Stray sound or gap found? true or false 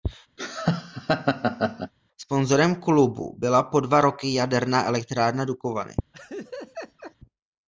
true